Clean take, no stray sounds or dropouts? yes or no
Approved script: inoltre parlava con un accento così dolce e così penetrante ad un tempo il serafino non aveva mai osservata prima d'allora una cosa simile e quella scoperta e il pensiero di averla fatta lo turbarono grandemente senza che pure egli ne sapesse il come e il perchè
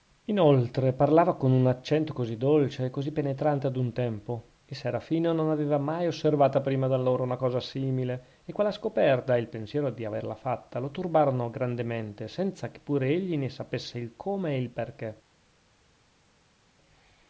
yes